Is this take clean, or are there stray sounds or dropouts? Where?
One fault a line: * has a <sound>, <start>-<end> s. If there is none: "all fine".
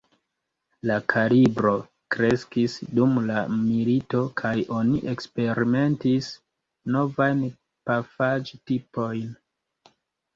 all fine